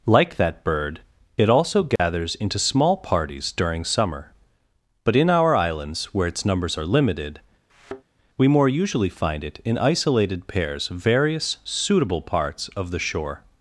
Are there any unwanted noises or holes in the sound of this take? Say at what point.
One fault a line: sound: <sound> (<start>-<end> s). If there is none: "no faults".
sound: dropout (2.0-2.0 s)
sound: thud (7.7-8.0 s)